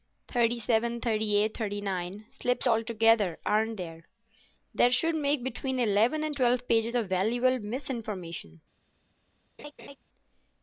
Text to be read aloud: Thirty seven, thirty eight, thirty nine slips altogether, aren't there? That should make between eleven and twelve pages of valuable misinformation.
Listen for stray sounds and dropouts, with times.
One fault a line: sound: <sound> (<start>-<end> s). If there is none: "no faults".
sound: laugh (9.6-10.0 s)